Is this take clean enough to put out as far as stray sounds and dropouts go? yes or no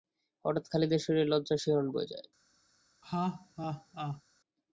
no